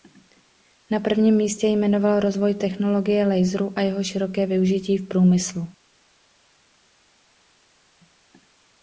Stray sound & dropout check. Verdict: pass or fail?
pass